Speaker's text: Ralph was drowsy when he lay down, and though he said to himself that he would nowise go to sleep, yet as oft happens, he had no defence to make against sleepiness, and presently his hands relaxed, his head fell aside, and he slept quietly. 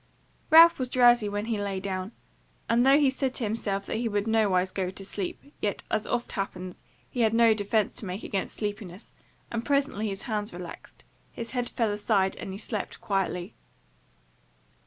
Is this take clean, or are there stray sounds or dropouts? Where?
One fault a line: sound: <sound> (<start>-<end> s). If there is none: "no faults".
no faults